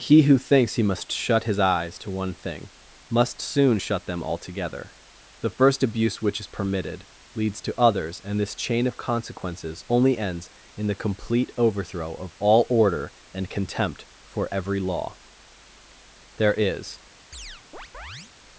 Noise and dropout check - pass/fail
fail